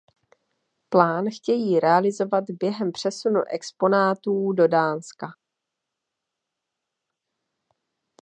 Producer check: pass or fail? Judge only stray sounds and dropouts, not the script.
pass